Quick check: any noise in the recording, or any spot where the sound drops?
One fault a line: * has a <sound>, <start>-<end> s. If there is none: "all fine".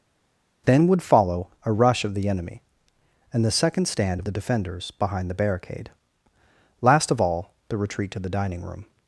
all fine